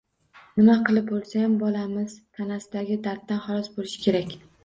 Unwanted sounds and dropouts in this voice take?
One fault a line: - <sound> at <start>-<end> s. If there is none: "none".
none